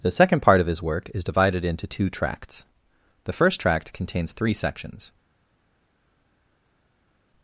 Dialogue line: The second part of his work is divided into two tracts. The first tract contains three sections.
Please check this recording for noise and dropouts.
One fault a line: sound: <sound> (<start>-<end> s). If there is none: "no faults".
no faults